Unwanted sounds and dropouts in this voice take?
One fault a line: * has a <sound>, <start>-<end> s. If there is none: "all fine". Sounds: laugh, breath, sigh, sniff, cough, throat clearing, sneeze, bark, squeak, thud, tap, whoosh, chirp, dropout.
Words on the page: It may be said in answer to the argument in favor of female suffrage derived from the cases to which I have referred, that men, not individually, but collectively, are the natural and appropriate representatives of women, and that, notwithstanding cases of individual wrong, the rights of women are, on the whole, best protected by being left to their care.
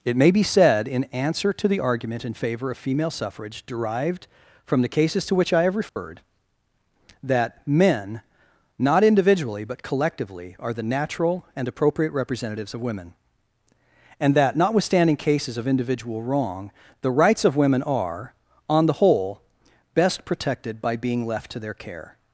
* has a dropout, 5.9-6.0 s